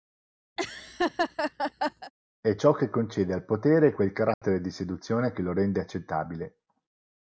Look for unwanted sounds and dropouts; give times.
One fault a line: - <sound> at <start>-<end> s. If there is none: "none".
- laugh at 0.6-2.1 s
- dropout at 4.3-4.4 s